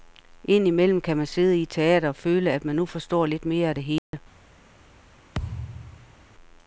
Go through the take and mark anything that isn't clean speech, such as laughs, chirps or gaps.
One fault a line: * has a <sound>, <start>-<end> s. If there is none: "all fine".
* has a dropout, 4.0-4.1 s
* has a thud, 5.3-6.2 s